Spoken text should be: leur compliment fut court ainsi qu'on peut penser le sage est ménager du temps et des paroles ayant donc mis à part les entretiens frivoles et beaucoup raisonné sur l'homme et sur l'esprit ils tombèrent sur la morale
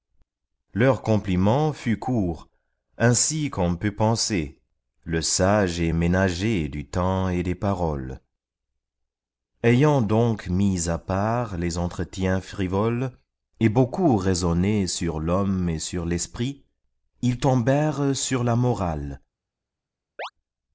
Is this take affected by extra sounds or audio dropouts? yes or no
yes